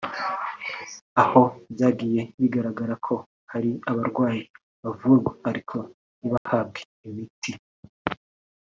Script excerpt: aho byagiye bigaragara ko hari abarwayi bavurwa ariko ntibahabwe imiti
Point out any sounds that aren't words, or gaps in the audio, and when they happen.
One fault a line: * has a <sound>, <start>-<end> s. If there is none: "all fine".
* has a dropout, 6.4-6.5 s